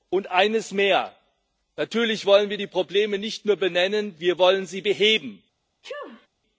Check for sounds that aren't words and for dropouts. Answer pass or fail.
fail